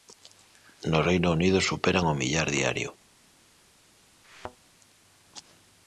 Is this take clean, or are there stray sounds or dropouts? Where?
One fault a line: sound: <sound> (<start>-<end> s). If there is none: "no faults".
sound: thud (4.2-4.6 s)